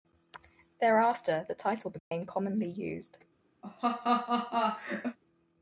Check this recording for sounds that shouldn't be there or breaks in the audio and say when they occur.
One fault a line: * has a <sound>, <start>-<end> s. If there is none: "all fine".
* has a dropout, 2.0-2.1 s
* has a laugh, 3.6-5.2 s